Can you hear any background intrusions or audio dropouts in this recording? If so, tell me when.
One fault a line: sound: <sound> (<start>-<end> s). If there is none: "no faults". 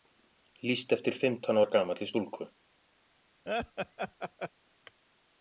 sound: laugh (3.5-4.5 s)